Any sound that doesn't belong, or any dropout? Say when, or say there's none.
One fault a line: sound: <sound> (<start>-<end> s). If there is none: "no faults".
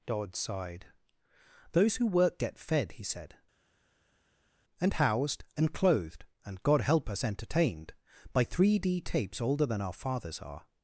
no faults